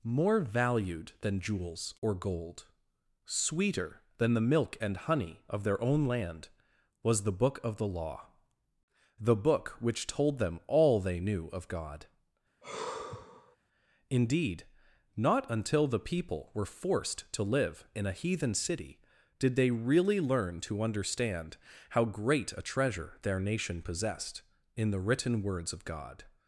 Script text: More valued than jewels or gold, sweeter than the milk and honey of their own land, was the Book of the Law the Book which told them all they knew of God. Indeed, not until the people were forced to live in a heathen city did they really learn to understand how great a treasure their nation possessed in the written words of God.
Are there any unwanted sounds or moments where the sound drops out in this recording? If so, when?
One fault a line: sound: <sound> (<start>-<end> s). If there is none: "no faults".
sound: sigh (12.6-13.6 s)